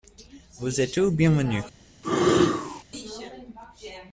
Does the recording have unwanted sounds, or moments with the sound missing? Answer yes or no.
yes